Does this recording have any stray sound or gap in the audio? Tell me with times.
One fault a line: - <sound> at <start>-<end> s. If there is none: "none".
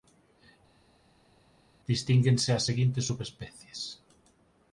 none